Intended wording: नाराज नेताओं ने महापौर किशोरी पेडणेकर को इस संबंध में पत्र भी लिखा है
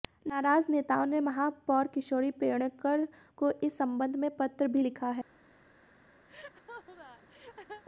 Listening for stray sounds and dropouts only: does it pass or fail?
fail